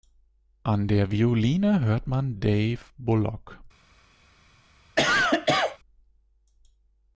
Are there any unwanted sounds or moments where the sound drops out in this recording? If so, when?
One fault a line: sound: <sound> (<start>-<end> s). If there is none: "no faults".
sound: cough (5.0-5.8 s)